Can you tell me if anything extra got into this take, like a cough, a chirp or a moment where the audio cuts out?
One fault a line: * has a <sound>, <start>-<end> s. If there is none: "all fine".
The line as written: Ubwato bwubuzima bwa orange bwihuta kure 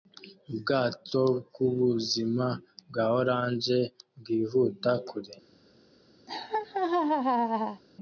* has a laugh, 6.3-7.8 s